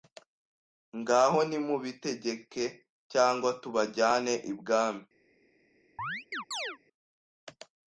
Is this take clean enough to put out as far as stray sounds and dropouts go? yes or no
no